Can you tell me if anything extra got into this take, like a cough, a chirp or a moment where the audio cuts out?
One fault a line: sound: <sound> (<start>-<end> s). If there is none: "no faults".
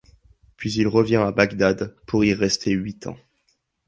no faults